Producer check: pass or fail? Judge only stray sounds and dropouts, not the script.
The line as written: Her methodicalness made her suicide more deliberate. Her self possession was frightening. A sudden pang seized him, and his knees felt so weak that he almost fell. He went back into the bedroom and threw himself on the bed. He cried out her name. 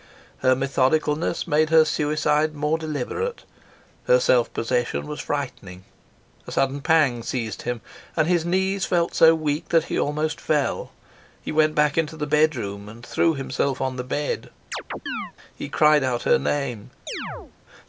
fail